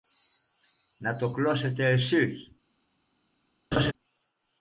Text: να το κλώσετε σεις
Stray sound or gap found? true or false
true